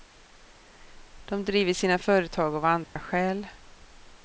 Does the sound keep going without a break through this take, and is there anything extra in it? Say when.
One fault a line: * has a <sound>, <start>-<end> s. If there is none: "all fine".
* has a dropout, 2.8-3.0 s